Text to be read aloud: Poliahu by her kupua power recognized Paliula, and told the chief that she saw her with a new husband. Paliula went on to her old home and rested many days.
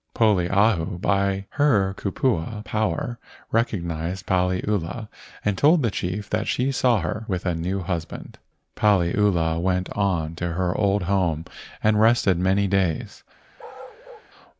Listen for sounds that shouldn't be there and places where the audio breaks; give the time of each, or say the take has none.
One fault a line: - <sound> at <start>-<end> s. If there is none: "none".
- bark at 13.6-14.3 s